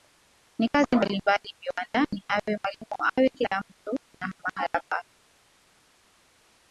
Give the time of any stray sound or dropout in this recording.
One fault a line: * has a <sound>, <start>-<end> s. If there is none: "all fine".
all fine